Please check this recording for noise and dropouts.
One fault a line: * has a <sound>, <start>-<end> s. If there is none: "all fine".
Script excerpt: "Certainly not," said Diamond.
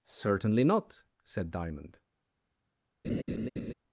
* has a laugh, 3.0-3.7 s